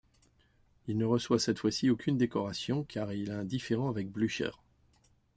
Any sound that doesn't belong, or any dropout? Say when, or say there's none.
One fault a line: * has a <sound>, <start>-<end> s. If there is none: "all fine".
all fine